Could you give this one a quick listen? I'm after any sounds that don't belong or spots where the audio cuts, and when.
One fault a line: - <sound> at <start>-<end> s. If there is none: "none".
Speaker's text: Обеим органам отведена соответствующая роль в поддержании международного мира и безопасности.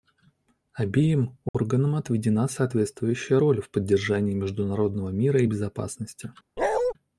- dropout at 1.5-1.5 s
- bark at 6.6-6.9 s